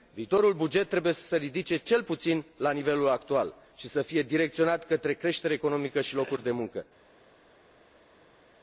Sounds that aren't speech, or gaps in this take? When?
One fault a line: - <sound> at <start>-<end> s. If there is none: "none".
none